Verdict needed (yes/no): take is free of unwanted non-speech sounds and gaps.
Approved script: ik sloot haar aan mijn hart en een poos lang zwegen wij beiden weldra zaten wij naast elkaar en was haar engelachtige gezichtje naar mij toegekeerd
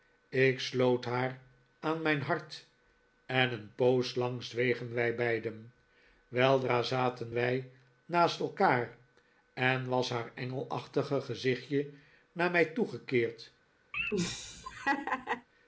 no